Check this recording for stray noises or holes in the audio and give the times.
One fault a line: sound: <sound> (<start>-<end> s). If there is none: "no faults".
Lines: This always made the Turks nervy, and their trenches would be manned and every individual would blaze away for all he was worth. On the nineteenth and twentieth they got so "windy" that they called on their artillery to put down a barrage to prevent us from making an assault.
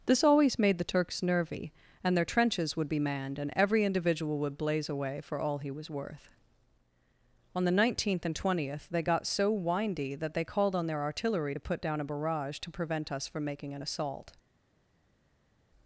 no faults